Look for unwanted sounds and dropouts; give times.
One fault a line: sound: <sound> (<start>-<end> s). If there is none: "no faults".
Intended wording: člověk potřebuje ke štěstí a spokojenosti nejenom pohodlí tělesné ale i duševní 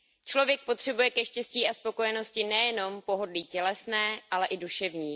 no faults